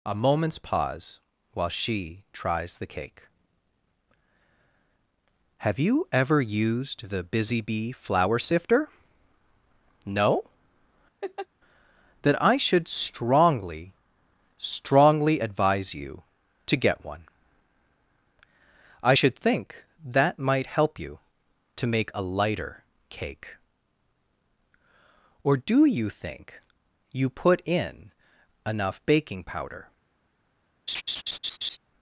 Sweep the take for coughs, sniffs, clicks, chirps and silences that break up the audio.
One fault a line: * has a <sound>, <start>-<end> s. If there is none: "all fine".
* has a laugh, 11.2-11.5 s
* has a laugh, 30.9-31.8 s